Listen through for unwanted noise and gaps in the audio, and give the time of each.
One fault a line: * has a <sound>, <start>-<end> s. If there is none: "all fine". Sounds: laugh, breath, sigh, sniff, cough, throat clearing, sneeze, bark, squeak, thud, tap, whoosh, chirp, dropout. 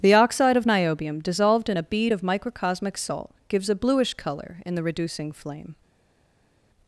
all fine